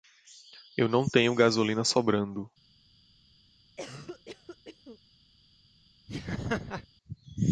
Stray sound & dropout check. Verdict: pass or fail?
fail